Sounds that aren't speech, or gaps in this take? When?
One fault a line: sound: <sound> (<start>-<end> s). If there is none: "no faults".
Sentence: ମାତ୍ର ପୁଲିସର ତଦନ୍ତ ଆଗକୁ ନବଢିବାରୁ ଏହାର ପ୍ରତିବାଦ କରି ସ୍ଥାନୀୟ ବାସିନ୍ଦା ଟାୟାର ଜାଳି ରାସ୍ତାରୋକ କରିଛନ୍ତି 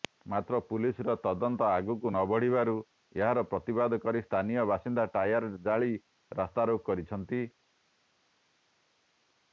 no faults